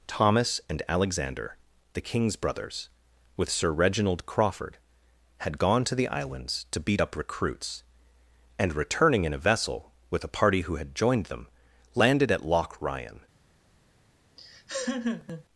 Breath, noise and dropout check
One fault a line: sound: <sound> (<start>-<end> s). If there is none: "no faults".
sound: laugh (14.4-15.4 s)